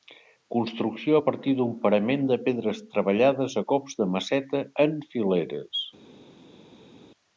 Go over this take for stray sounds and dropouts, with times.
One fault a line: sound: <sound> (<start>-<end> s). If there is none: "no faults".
no faults